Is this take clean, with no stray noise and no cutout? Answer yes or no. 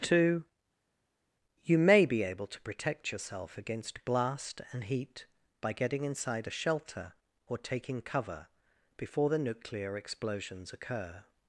yes